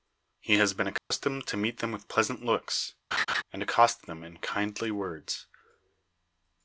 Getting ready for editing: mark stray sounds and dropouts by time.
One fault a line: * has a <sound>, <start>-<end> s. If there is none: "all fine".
* has a dropout, 1.0-1.1 s
* has a laugh, 3.1-3.4 s